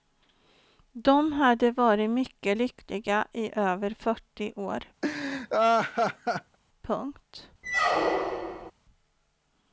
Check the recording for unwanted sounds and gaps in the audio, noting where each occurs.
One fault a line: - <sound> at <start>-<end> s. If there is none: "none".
- laugh at 5.0-6.6 s
- squeak at 7.6-8.7 s